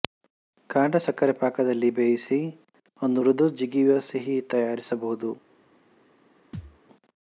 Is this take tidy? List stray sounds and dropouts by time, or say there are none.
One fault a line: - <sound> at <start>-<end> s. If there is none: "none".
- thud at 6.5-6.8 s